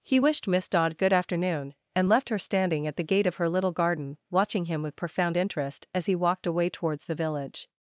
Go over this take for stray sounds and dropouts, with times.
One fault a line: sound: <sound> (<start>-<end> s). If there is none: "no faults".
no faults